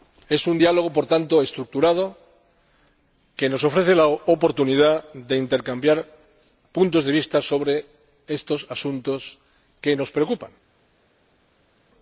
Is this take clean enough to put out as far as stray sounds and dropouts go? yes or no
yes